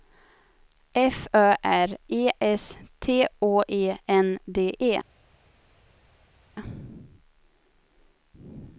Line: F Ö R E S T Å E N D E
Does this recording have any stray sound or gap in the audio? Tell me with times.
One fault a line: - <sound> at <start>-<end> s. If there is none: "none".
none